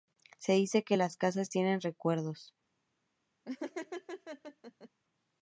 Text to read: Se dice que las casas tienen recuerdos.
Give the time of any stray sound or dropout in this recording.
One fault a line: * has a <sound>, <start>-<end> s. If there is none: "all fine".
* has a laugh, 3.5-4.9 s